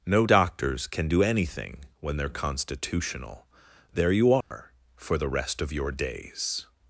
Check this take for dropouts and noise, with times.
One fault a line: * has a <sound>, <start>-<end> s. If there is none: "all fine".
* has a dropout, 4.4-4.5 s